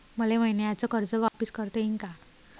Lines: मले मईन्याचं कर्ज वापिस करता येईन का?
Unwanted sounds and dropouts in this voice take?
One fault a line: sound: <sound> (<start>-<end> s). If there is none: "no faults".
sound: dropout (1.3-1.3 s)